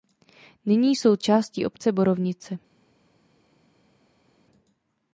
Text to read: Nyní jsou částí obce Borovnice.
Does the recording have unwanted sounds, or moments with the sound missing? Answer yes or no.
no